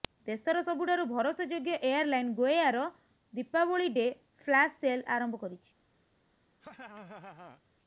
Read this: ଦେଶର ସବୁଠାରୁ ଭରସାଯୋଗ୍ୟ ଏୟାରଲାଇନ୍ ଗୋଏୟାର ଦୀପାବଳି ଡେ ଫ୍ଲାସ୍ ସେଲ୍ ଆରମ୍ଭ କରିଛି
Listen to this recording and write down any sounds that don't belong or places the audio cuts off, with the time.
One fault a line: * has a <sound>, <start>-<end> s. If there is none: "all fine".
* has a laugh, 6.6-7.6 s